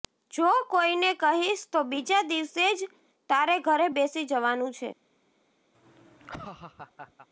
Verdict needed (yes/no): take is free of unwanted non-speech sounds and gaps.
no